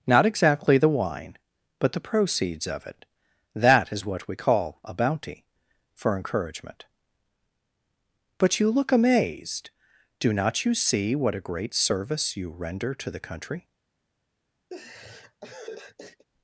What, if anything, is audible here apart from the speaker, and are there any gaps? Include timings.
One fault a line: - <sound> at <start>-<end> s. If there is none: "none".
- laugh at 14.7-16.3 s